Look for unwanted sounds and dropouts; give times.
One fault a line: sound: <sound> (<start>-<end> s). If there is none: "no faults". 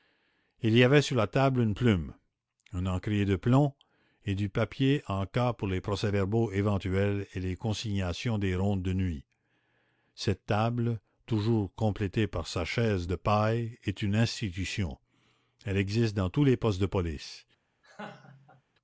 sound: laugh (17.8-18.6 s)